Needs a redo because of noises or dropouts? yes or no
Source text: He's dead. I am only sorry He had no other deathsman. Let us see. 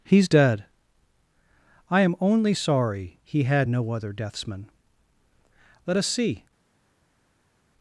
no